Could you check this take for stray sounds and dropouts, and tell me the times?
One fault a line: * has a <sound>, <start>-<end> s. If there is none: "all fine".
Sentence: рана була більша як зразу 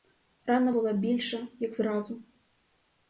all fine